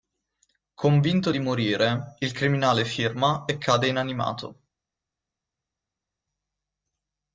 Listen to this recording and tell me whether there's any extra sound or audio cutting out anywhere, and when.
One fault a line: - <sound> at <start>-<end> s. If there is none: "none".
none